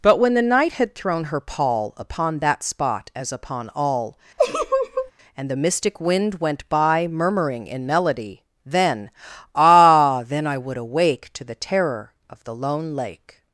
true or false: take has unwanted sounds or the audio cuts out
true